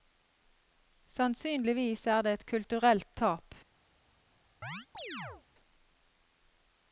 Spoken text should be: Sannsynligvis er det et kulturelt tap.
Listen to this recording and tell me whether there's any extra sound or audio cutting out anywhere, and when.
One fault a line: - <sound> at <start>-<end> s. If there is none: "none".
- chirp at 4.6-5.4 s